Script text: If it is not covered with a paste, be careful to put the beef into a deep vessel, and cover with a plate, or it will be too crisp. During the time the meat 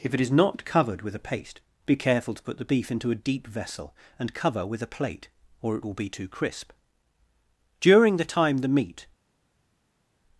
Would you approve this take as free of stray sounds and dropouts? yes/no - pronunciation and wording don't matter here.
yes